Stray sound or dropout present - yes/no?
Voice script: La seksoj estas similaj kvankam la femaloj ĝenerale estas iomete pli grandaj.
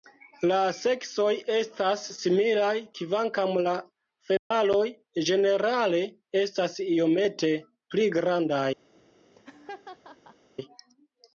yes